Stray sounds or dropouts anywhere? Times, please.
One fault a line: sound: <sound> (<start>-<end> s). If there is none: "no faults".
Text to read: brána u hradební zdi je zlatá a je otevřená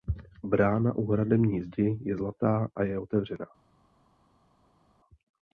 no faults